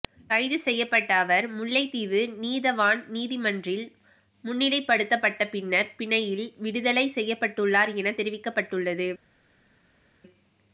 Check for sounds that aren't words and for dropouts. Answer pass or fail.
pass